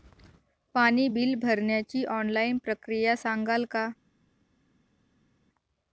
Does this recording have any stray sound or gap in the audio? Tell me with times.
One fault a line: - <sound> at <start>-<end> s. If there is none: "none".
none